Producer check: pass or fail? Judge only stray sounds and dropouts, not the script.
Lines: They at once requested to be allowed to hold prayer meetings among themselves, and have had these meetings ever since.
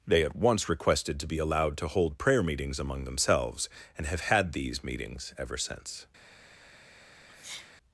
fail